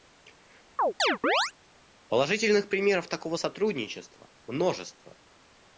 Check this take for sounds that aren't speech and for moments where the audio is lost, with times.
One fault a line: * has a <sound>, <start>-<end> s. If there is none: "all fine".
* has a chirp, 0.8-1.5 s